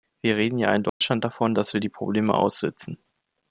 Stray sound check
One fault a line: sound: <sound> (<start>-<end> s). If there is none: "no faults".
sound: dropout (0.9-1.0 s)